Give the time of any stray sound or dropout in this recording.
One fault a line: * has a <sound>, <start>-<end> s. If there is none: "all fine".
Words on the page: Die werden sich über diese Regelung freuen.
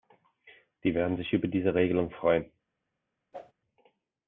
* has a whoosh, 3.3-3.5 s